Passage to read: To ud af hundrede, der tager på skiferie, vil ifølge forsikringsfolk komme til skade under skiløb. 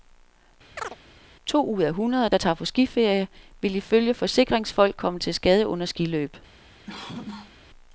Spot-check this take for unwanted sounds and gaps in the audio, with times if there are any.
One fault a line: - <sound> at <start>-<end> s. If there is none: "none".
- chirp at 0.8-1.0 s
- cough at 6.9-7.6 s